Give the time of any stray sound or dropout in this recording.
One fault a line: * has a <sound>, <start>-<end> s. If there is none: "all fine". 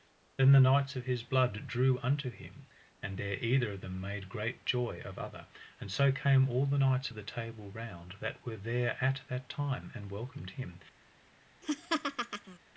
* has a laugh, 11.6-12.6 s